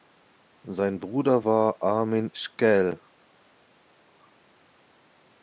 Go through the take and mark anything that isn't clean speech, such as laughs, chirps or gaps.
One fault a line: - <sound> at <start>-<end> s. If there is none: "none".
none